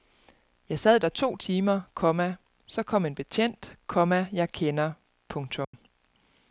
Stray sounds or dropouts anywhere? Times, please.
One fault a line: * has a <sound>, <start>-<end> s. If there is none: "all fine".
* has a dropout, 5.6-5.7 s